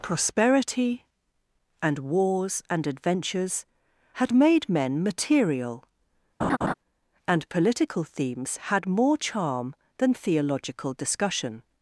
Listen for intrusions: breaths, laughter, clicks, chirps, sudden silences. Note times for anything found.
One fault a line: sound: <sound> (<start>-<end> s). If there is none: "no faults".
sound: laugh (6.4-6.7 s)